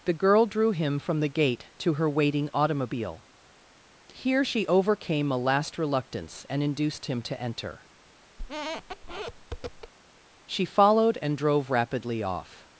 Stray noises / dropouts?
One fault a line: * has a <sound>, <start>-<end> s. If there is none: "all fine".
* has a squeak, 8.4-9.9 s